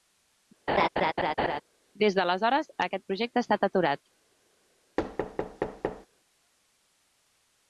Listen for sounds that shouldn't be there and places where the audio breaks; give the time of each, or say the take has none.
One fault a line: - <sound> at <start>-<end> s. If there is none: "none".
- laugh at 0.7-1.6 s
- thud at 5.0-6.1 s